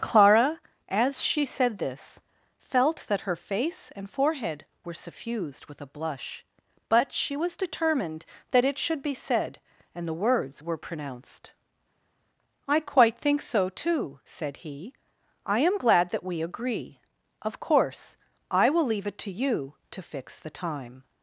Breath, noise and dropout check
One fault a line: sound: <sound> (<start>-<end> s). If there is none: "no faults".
no faults